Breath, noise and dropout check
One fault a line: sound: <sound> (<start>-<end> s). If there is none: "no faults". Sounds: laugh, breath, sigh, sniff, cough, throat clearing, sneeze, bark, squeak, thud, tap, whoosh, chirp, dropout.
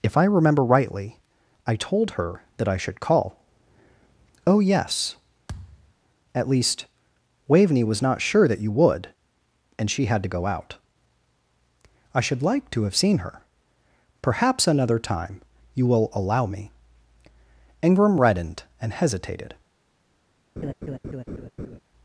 sound: thud (5.5-5.9 s)
sound: laugh (20.6-21.8 s)